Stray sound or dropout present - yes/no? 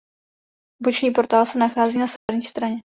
yes